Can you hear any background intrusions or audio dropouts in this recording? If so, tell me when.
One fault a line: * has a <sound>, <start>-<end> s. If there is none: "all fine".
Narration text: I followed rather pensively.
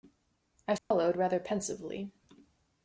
* has a dropout, 0.8-0.9 s